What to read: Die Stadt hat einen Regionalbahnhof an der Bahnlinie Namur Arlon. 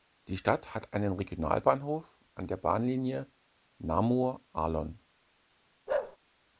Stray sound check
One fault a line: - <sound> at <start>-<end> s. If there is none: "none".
- bark at 5.9-6.2 s